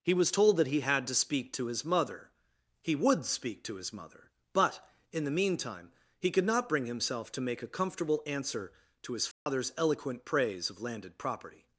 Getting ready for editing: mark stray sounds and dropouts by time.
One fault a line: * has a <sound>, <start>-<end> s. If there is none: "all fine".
* has a dropout, 9.3-9.5 s